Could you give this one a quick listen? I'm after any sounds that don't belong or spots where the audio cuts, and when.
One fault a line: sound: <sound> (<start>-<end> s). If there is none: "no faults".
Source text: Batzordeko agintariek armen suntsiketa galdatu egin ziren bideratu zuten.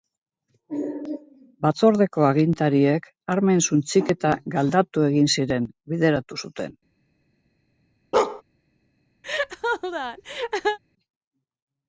sound: bark (8.1-8.4 s)
sound: laugh (9.2-10.8 s)